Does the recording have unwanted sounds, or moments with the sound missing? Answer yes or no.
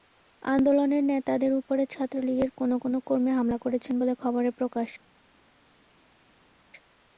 no